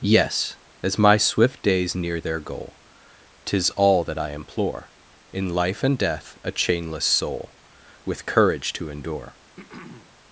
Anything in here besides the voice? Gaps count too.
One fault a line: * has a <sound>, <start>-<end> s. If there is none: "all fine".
* has a throat clearing, 9.6-10.1 s